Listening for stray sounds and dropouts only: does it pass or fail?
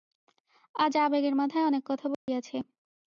fail